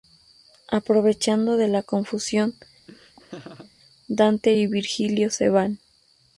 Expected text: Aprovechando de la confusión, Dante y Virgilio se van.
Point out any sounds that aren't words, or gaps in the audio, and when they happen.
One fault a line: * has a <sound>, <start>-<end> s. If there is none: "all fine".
* has a laugh, 2.9-3.7 s